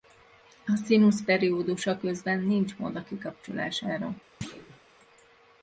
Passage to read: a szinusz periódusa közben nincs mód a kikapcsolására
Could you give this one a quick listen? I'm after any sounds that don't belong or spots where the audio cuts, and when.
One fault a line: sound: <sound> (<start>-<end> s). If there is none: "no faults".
sound: thud (4.4-4.8 s)